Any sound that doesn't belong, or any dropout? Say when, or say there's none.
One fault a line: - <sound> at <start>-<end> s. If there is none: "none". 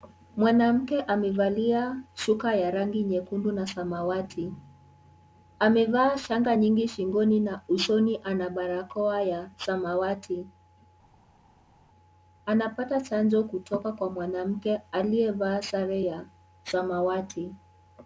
none